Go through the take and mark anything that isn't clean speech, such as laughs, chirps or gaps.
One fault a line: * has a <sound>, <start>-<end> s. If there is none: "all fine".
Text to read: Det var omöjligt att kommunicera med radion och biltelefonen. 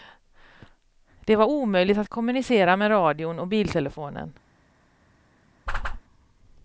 * has a whoosh, 5.7-6.0 s